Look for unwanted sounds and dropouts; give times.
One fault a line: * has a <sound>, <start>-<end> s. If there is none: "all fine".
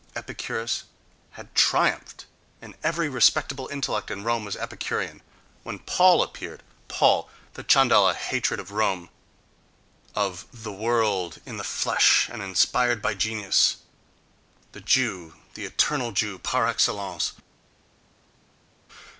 all fine